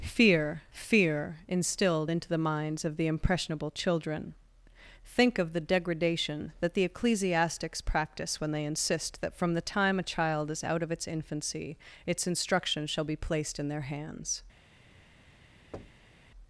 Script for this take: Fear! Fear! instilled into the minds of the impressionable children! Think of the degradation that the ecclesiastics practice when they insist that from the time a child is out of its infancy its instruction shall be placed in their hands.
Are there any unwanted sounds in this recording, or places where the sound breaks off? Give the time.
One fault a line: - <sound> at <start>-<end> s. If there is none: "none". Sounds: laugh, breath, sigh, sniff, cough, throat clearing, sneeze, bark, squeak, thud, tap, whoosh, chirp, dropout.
- thud at 15.7-16.2 s